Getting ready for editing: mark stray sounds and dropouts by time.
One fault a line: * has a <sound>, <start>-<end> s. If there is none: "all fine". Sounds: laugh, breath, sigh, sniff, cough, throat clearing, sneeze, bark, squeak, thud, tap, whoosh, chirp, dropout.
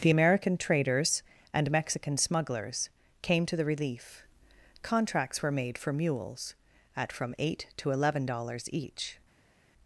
all fine